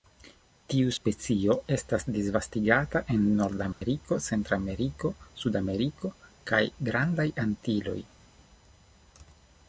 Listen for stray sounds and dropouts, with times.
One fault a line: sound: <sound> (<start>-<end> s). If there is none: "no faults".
sound: dropout (3.7-3.8 s)